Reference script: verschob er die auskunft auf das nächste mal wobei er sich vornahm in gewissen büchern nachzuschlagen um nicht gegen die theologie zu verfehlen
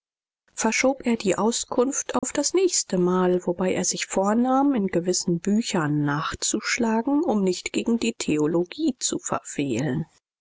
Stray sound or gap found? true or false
true